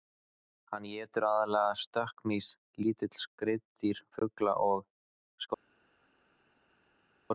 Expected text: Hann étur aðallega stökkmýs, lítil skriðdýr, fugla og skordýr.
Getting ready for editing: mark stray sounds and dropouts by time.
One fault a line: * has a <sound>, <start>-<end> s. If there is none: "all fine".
all fine